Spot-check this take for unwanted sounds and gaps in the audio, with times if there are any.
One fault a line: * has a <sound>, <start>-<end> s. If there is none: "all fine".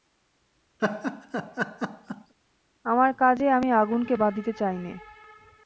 * has a laugh, 0.8-2.3 s